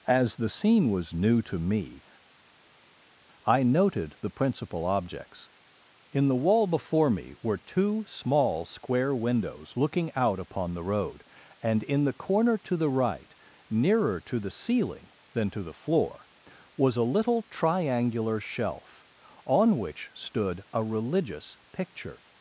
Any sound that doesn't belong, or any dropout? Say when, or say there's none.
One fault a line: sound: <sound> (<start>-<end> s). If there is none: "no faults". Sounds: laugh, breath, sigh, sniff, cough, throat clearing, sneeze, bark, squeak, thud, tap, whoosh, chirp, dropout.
no faults